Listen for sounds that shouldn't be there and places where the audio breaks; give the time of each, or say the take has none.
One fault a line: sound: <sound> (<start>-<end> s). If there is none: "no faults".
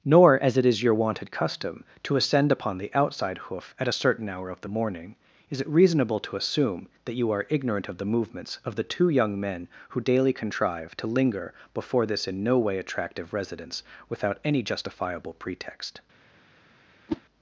sound: whoosh (17.1-17.2 s)